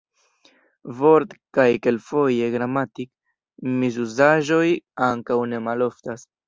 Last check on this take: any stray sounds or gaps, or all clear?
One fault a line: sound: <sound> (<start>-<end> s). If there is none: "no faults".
no faults